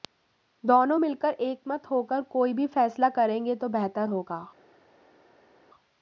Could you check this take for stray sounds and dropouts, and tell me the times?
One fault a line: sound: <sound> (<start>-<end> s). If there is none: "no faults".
no faults